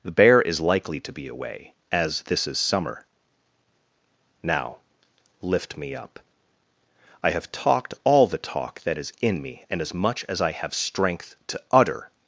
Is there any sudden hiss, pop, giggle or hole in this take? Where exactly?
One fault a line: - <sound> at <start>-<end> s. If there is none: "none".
none